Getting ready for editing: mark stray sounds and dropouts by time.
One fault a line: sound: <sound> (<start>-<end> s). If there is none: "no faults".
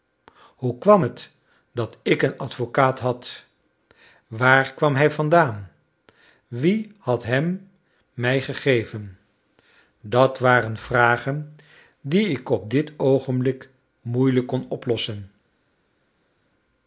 no faults